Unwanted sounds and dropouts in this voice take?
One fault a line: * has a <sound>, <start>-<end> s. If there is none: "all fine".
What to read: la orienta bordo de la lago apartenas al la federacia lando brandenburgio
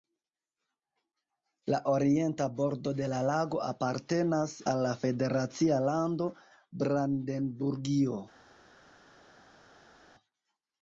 all fine